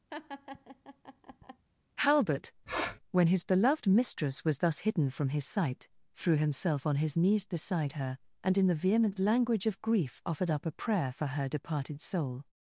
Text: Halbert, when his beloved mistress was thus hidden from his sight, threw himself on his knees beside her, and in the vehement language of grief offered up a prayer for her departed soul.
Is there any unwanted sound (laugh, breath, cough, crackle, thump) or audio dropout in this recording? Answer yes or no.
yes